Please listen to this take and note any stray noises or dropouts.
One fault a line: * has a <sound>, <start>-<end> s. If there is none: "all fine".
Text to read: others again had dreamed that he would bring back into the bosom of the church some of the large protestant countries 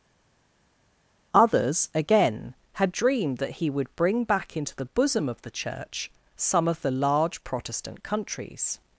all fine